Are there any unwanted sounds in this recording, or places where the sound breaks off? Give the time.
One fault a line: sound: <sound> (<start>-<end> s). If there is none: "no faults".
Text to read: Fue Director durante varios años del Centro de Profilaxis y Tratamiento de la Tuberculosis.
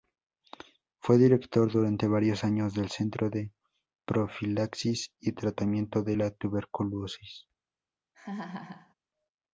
sound: laugh (8.1-8.9 s)